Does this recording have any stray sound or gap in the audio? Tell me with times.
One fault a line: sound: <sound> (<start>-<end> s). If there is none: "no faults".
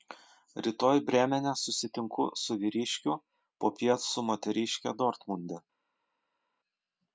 no faults